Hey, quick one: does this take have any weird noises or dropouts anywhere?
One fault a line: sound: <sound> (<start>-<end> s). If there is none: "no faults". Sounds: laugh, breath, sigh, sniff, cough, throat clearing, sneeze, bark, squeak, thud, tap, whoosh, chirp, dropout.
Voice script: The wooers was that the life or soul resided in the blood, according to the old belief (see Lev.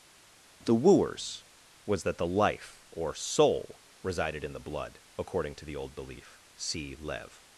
no faults